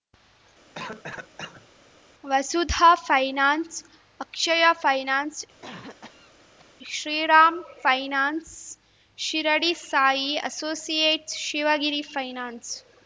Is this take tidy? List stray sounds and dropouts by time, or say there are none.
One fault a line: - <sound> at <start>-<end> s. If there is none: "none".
- cough at 0.7-1.7 s
- cough at 5.6-6.7 s